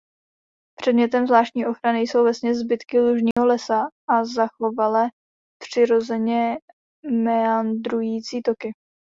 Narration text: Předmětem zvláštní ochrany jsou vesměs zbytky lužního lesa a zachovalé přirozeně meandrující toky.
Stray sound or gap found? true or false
true